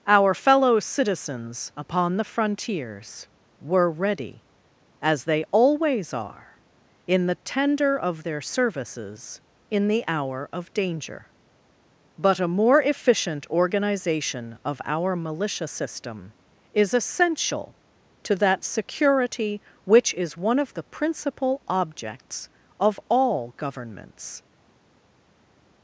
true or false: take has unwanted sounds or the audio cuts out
false